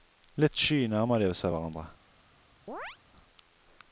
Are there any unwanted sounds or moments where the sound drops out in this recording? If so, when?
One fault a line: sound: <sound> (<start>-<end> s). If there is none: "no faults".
sound: chirp (2.7-3.0 s)